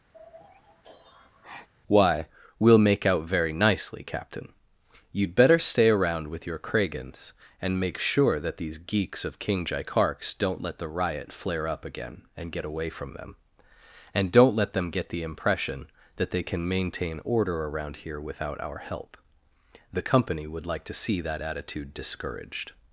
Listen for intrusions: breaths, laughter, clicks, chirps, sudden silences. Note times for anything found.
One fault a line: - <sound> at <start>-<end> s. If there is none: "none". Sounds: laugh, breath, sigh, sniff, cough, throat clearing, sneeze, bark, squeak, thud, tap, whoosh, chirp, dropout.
- sigh at 0.1-1.7 s